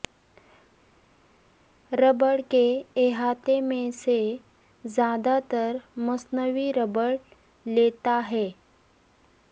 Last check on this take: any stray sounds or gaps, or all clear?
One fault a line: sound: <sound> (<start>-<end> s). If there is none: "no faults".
no faults